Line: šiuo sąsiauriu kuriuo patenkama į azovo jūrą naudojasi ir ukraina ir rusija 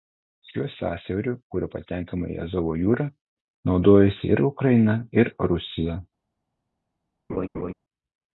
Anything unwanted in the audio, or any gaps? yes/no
yes